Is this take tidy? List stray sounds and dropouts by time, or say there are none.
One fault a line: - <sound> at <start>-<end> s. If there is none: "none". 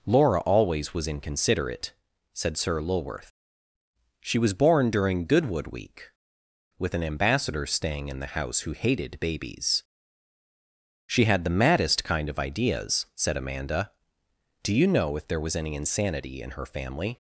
none